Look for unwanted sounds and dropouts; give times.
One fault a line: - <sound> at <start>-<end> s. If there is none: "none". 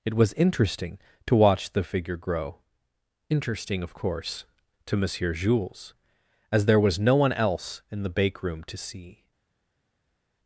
none